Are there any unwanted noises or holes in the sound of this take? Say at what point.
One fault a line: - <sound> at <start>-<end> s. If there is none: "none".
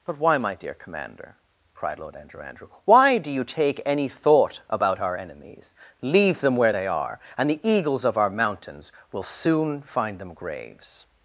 none